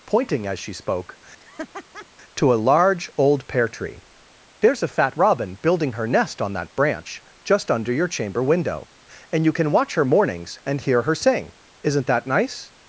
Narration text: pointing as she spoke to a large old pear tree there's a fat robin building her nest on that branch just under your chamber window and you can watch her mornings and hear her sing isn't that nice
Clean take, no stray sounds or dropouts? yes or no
no